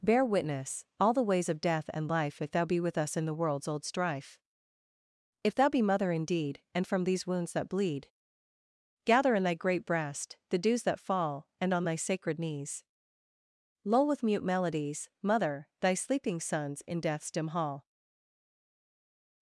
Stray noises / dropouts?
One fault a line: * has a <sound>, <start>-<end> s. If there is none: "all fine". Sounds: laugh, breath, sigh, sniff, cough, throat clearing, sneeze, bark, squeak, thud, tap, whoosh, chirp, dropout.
all fine